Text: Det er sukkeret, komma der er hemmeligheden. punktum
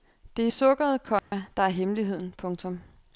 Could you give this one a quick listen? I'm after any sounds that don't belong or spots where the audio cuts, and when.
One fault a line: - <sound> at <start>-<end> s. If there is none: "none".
- dropout at 1.2-1.3 s